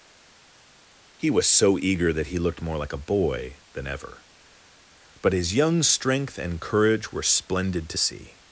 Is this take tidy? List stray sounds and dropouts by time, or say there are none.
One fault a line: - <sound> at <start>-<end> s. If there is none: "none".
none